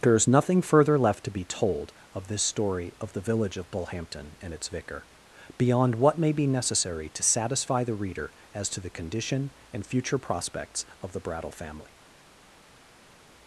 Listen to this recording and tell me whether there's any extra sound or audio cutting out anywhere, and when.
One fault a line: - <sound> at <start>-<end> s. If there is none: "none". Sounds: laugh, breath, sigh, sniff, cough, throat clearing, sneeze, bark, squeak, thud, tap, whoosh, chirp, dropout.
none